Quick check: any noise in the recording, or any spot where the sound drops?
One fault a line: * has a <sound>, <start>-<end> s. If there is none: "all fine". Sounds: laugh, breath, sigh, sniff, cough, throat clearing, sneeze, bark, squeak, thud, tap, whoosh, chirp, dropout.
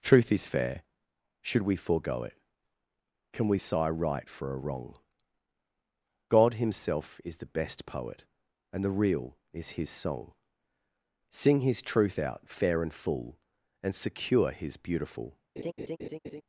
* has a laugh, 15.6-16.4 s